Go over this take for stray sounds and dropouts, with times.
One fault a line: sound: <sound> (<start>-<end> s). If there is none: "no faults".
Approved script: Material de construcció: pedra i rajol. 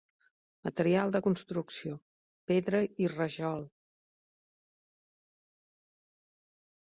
no faults